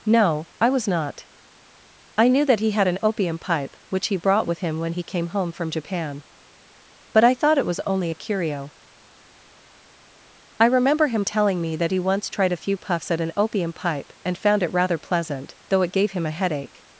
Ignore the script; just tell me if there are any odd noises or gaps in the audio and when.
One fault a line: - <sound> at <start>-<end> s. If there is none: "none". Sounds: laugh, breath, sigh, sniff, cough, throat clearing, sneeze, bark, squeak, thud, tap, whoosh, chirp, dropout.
none